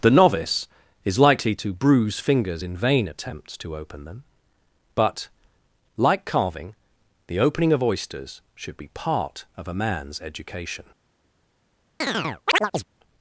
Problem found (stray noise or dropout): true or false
true